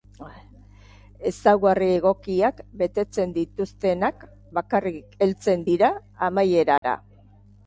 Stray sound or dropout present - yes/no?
yes